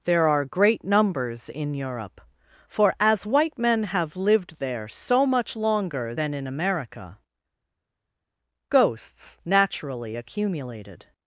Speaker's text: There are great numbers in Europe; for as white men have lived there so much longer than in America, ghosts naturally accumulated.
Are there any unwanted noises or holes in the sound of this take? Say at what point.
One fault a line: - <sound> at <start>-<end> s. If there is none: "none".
none